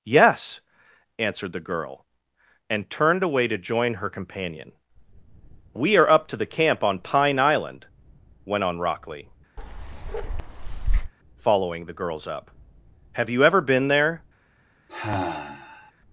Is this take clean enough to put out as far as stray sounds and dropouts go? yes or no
no